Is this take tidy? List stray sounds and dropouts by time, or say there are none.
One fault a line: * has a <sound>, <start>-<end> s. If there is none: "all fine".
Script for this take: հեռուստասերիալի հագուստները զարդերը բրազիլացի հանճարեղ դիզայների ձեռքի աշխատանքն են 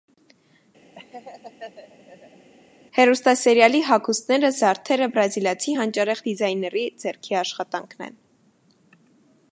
* has a laugh, 1.0-2.5 s